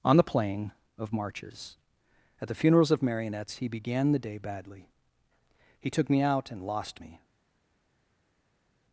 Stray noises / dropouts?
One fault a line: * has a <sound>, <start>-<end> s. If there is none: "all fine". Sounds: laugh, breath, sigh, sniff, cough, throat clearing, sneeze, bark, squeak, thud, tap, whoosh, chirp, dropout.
all fine